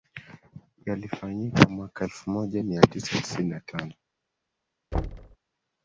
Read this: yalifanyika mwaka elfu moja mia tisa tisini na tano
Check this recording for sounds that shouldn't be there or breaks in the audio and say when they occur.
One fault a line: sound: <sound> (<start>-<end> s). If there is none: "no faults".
sound: thud (4.9-5.4 s)